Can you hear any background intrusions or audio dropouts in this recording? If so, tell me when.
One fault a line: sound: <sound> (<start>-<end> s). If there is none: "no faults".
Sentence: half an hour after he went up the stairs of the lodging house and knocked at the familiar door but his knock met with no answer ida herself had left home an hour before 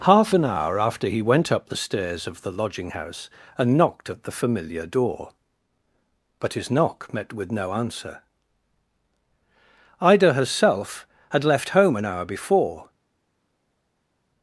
no faults